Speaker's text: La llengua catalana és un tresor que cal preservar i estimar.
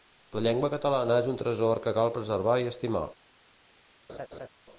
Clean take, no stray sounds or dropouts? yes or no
no